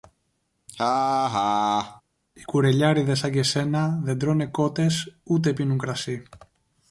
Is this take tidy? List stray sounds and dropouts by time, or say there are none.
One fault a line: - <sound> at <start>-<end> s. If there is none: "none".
- laugh at 0.7-2.0 s